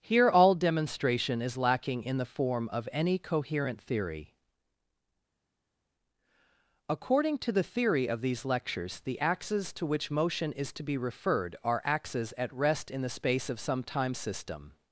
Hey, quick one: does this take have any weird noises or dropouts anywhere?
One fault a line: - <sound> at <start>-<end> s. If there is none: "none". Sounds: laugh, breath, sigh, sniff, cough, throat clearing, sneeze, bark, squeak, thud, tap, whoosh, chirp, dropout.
none